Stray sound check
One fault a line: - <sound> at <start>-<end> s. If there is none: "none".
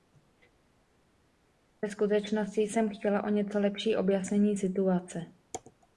none